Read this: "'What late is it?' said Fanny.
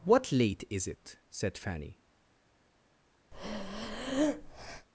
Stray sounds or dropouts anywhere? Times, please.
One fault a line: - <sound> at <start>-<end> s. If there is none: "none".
- breath at 3.3-4.9 s